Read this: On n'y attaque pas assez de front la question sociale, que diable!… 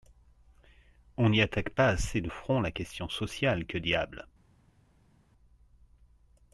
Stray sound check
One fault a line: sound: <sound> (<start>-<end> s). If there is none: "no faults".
no faults